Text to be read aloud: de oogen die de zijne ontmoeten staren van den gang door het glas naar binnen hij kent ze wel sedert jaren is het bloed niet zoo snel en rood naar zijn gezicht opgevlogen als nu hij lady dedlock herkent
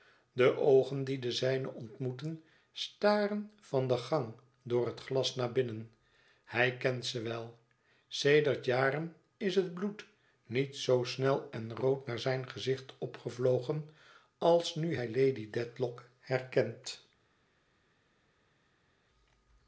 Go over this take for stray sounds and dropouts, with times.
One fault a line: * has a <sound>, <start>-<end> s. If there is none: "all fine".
all fine